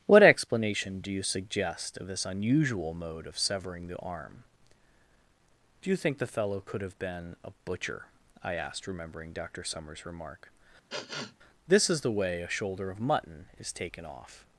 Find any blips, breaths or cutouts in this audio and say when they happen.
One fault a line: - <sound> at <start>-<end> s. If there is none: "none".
- sniff at 10.9-11.4 s